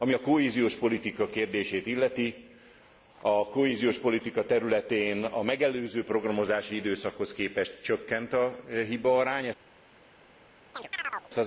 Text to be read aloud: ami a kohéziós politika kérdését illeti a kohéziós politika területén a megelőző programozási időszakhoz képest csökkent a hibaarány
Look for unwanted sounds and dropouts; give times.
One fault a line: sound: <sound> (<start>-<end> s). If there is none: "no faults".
sound: chirp (10.7-11.3 s)